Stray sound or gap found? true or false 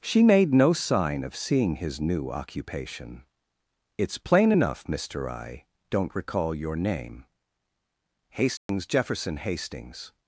true